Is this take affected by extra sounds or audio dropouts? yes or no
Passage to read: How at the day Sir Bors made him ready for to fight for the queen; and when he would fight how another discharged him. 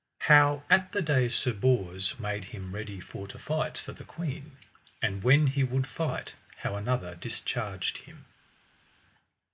no